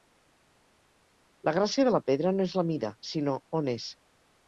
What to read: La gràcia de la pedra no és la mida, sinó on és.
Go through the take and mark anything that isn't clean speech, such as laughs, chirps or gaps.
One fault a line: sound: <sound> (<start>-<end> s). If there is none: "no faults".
no faults